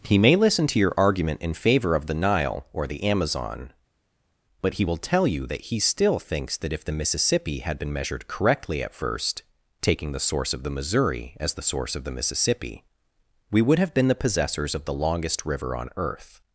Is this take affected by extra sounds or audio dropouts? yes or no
no